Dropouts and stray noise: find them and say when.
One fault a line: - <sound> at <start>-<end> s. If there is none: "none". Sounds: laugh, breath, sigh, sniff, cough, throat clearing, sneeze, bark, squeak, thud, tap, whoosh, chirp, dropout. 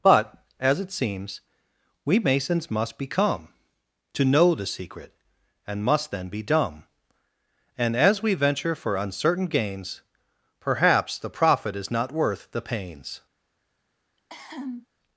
- cough at 14.2-14.9 s